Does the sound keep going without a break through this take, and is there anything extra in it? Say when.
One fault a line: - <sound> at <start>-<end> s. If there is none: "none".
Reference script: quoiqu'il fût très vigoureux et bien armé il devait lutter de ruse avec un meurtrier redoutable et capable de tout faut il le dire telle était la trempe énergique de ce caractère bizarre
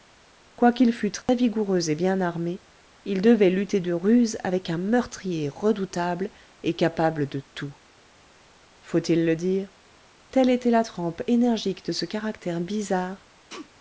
- dropout at 1.2-1.3 s
- sneeze at 13.5-13.7 s